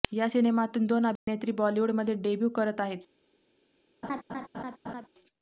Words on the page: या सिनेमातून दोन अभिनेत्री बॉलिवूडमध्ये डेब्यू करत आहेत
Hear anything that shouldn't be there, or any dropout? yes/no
yes